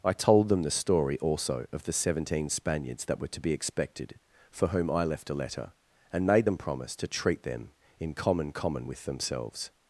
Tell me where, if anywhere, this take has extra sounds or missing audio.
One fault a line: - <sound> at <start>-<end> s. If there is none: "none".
none